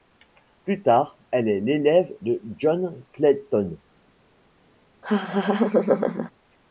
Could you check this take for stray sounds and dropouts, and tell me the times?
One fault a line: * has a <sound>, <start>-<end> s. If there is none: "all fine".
* has a laugh, 5.0-6.3 s